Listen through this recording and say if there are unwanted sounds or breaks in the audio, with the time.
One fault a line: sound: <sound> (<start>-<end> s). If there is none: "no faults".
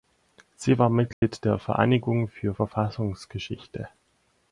sound: dropout (1.1-1.2 s)